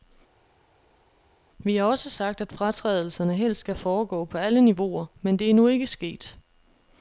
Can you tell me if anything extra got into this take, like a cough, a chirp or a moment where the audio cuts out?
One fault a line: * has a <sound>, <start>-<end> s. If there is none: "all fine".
all fine